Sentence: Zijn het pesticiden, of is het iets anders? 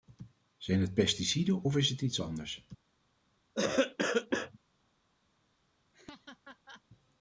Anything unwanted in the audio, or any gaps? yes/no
yes